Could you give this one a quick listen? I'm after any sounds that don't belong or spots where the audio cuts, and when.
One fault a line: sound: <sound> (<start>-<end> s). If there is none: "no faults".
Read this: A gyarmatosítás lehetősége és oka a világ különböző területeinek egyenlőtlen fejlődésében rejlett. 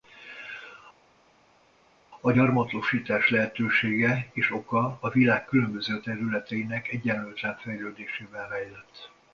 no faults